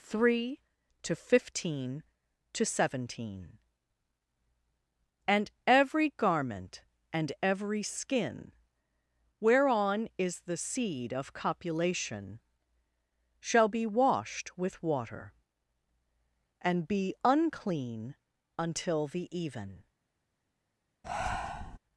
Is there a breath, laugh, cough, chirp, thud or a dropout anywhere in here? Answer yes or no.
yes